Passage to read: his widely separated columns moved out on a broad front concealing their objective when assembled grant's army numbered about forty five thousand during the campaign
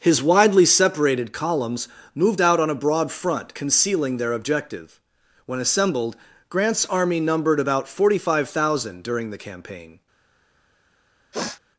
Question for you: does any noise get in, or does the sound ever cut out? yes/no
yes